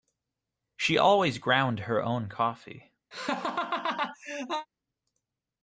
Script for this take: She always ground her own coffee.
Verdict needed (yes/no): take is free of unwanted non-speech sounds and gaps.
no